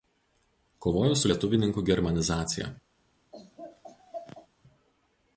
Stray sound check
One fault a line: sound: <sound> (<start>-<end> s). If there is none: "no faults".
sound: laugh (3.3-4.5 s)